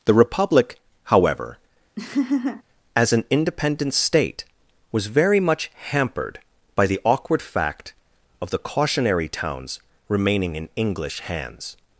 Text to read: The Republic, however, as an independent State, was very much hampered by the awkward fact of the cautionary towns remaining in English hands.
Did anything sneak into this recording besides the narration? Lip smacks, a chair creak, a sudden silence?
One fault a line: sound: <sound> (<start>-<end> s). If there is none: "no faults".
sound: laugh (2.0-2.6 s)